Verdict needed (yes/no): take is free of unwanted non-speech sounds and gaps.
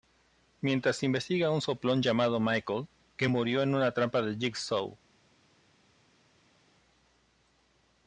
yes